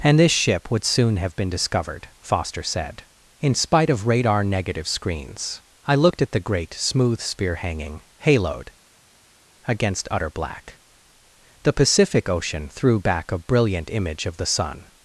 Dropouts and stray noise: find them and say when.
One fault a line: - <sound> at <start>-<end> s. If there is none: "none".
none